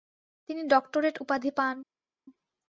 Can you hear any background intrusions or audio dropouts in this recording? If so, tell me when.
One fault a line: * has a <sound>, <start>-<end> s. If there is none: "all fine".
all fine